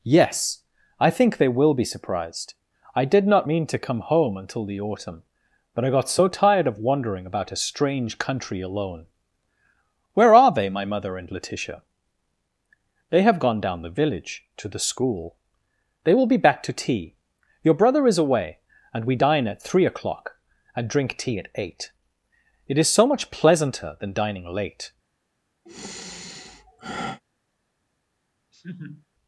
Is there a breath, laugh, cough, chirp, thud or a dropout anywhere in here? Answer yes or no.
yes